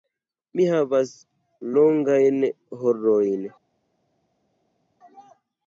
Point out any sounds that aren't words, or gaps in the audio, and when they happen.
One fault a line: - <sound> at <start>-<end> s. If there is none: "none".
none